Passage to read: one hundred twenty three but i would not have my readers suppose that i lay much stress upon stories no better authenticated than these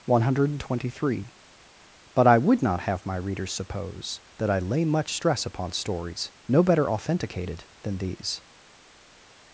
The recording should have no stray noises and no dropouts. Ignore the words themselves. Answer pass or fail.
pass